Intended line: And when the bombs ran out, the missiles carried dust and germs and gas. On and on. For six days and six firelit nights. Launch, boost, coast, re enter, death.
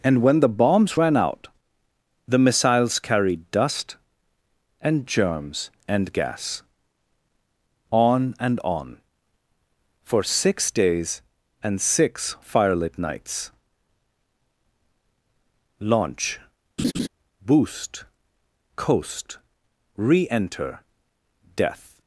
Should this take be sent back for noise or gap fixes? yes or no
yes